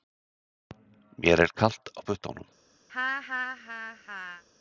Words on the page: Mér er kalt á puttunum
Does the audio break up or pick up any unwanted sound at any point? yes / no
yes